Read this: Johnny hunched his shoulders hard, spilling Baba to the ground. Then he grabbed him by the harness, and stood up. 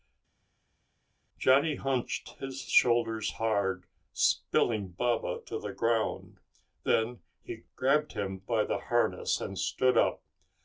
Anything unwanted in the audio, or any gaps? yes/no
no